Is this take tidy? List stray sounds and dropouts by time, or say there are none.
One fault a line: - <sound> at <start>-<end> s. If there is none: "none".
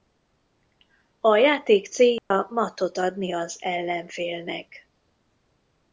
- dropout at 2.2-2.3 s